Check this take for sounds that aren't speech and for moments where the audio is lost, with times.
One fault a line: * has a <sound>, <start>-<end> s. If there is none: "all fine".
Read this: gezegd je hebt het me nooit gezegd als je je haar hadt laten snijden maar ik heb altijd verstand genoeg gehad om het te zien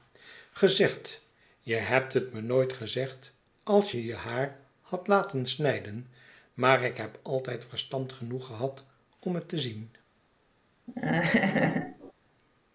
* has a laugh, 10.9-12.1 s